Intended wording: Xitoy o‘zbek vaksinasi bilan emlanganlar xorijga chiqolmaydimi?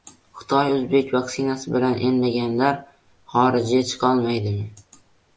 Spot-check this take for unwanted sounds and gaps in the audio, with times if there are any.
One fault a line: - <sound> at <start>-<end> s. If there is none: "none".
none